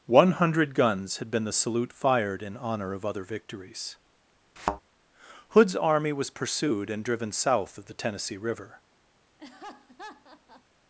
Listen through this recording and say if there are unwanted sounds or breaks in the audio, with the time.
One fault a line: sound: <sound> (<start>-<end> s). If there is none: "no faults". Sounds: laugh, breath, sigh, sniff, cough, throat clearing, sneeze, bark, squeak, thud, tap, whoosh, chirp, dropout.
sound: thud (4.6-4.8 s)
sound: laugh (9.4-10.6 s)